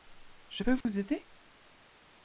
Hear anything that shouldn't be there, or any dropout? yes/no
yes